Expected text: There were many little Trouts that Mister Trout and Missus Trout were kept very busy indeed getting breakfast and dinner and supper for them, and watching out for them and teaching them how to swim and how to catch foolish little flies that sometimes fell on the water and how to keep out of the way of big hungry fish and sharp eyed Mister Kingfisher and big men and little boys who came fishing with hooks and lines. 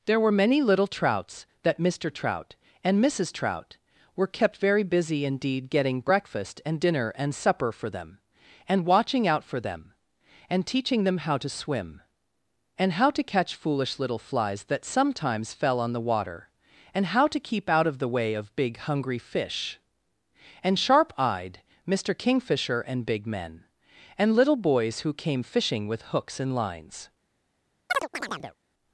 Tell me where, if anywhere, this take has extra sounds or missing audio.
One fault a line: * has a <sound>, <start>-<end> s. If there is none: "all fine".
* has a chirp, 27.9-28.6 s